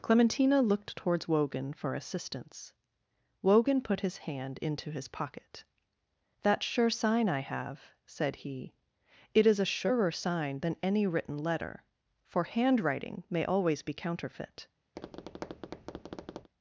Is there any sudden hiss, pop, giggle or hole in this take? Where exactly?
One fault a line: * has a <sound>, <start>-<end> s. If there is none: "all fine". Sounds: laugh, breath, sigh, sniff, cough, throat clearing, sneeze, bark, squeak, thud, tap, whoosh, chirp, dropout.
* has a tap, 15.0-16.5 s